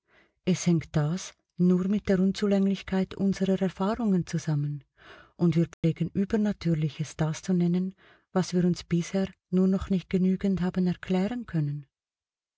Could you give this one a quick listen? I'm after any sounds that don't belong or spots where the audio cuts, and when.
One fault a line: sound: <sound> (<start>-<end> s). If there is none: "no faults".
sound: dropout (5.7-5.8 s)